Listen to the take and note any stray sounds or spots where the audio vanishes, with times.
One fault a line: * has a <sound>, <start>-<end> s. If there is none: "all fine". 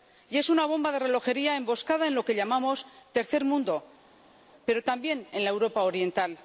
all fine